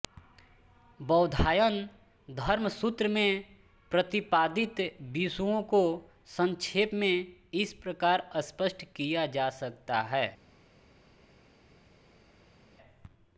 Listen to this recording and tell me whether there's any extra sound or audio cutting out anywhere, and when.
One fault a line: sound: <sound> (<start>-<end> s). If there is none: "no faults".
no faults